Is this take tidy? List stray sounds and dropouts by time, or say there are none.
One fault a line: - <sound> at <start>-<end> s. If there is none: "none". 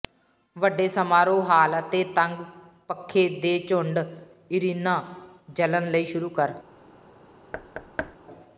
- thud at 7.5-8.2 s